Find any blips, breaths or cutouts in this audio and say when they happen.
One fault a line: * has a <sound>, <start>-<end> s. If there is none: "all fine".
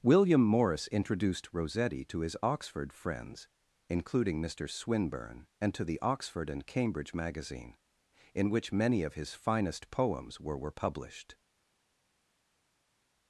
all fine